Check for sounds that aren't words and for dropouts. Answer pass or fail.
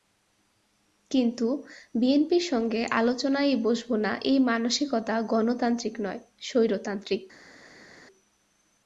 pass